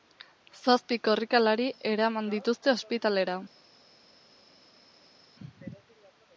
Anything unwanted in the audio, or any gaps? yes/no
no